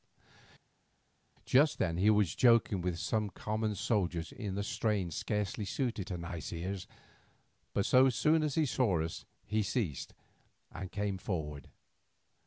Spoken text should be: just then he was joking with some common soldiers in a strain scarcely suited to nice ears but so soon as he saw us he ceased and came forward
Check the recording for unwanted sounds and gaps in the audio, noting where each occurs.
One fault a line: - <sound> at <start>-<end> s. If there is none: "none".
none